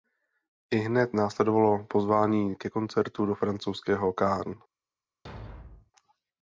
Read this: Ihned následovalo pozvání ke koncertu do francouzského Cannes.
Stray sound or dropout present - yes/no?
yes